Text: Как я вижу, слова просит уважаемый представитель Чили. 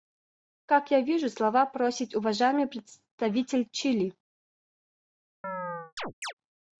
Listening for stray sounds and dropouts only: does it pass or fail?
fail